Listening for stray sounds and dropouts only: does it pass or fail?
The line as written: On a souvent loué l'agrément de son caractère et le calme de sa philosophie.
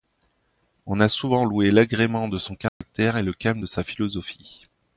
fail